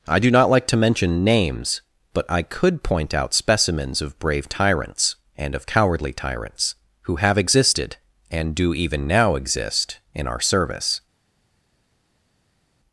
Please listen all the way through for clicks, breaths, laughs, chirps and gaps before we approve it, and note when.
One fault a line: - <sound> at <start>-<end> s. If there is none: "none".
none